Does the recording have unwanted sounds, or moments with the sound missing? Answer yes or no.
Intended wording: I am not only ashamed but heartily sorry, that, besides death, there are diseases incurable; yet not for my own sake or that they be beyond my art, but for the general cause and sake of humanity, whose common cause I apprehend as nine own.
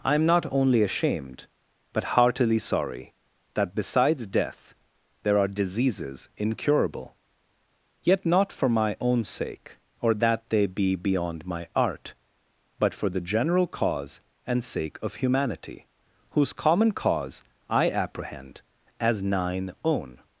no